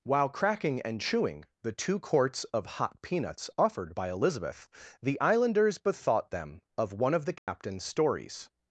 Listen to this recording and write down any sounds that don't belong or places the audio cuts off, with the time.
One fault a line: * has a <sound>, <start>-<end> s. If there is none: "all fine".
* has a dropout, 7.4-7.5 s